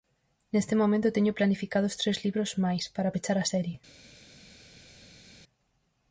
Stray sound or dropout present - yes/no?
no